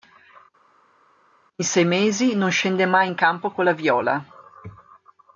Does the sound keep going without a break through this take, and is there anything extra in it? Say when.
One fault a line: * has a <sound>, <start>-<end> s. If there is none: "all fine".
all fine